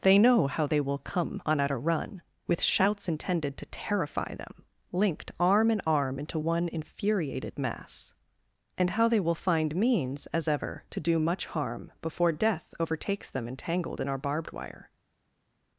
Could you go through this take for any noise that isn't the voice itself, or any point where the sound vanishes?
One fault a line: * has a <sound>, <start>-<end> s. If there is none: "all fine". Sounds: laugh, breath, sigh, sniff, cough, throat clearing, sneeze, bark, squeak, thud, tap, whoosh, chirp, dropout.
all fine